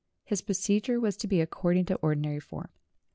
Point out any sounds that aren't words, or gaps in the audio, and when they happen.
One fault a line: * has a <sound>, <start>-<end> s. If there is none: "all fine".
all fine